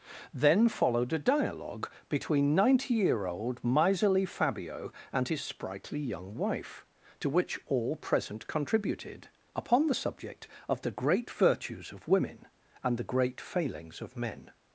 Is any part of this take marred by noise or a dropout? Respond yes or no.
no